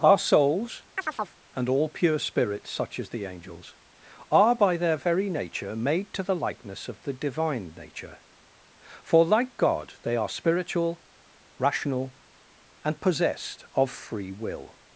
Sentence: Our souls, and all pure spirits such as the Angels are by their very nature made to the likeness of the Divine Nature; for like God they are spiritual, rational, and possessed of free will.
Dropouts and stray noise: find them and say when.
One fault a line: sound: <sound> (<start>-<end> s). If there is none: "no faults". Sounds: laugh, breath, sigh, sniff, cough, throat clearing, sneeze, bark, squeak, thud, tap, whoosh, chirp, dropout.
sound: chirp (1.0-1.4 s)